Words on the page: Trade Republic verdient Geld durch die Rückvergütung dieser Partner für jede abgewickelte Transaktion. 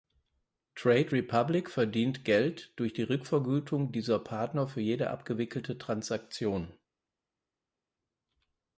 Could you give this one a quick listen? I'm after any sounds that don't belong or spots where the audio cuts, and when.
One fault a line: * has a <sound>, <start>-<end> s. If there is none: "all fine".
all fine